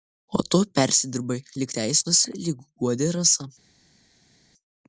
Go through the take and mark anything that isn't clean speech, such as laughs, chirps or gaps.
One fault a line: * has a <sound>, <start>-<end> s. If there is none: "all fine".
all fine